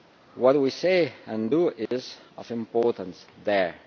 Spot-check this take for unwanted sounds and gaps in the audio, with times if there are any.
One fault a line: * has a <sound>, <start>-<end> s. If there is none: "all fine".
* has a dropout, 1.9-1.9 s